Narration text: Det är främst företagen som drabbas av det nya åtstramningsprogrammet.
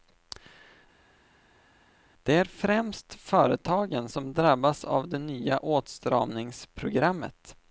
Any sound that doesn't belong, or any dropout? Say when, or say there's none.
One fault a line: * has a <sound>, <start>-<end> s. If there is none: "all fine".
all fine